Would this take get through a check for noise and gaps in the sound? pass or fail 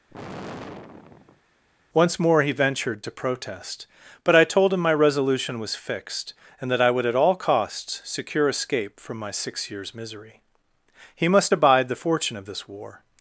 fail